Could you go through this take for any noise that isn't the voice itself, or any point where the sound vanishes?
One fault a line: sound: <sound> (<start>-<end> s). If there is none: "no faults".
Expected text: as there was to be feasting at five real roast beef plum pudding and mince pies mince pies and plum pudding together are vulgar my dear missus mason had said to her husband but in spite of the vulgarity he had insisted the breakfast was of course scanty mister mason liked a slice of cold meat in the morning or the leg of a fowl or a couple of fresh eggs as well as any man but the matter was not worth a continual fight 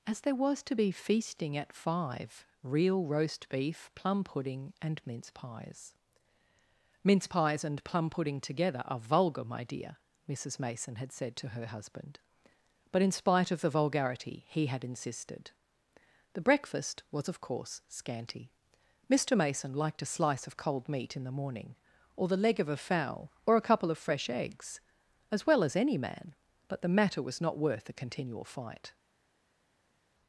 no faults